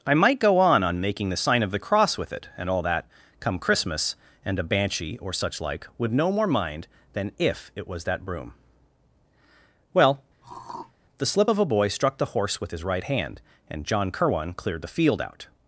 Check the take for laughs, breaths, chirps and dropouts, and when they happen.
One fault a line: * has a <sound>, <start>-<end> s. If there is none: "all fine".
* has a throat clearing, 10.4-10.9 s